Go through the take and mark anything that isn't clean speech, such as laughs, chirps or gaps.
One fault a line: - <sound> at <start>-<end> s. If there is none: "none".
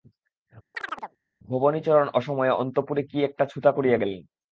- chirp at 0.7-1.2 s